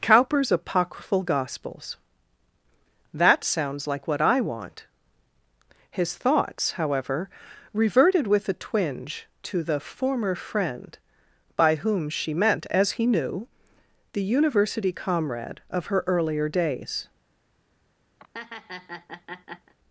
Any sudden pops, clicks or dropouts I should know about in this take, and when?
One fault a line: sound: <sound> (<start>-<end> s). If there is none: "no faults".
sound: laugh (18.2-19.7 s)